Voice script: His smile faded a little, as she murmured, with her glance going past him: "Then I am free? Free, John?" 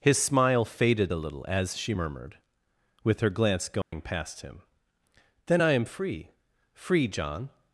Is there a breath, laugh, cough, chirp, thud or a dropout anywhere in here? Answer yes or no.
yes